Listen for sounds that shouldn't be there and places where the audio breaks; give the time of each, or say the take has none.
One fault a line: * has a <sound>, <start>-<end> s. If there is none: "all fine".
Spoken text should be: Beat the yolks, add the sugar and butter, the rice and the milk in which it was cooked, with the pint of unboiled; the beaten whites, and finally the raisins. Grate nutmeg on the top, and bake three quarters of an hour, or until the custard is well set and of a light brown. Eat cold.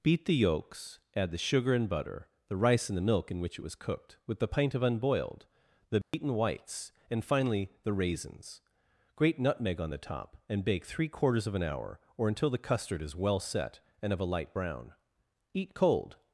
* has a dropout, 6.0-6.1 s